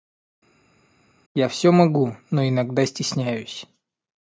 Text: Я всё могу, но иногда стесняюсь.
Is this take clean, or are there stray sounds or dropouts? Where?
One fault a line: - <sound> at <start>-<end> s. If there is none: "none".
none